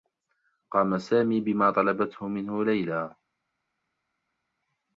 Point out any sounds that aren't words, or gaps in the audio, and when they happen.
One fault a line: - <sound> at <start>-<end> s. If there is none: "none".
none